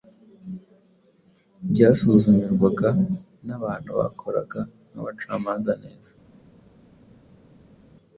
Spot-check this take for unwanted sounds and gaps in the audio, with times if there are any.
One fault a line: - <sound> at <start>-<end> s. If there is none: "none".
none